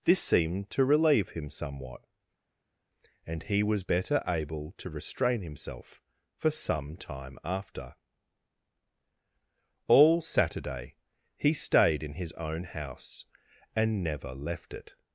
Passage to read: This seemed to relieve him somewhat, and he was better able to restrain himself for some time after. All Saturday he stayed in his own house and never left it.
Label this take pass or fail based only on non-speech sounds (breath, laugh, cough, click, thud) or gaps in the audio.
pass